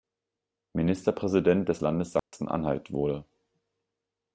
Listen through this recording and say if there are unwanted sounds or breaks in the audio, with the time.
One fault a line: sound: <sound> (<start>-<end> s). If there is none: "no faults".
sound: dropout (2.2-2.3 s)